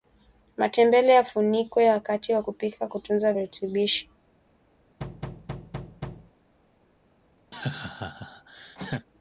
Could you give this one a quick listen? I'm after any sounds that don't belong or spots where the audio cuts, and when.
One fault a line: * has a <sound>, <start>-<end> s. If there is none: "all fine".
* has a thud, 5.0-6.3 s
* has a laugh, 7.5-9.1 s